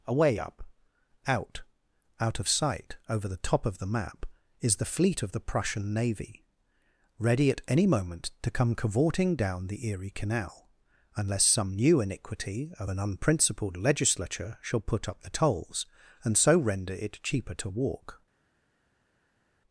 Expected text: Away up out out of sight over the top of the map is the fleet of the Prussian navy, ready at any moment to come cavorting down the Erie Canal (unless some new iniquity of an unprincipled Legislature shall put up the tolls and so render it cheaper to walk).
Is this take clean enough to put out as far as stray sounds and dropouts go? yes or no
yes